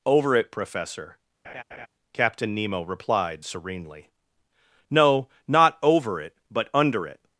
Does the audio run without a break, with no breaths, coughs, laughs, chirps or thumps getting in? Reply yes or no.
no